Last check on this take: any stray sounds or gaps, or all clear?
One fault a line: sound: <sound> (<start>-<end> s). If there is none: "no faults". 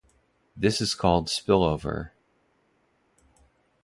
no faults